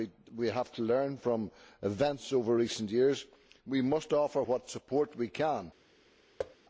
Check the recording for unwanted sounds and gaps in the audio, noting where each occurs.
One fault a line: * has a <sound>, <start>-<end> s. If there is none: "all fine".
* has a thud, 6.4-6.6 s